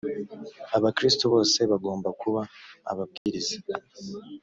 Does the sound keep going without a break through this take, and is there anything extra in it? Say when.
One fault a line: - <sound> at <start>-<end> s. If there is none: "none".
- dropout at 3.2-3.3 s